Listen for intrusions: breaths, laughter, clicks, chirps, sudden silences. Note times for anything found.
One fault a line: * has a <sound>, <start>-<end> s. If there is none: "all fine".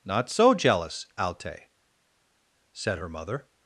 all fine